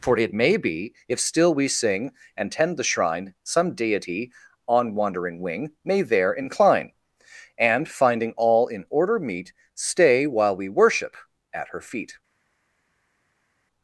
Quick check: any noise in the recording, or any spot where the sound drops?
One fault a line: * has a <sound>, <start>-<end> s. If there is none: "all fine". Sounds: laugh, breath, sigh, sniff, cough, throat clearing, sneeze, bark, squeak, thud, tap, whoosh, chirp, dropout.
all fine